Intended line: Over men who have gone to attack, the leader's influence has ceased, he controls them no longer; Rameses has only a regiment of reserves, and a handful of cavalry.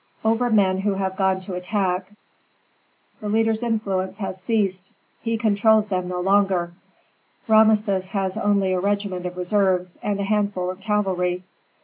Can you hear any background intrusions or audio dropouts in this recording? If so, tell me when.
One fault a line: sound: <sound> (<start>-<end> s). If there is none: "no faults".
no faults